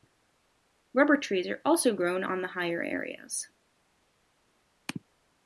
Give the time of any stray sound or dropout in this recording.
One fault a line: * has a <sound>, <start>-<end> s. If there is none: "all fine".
all fine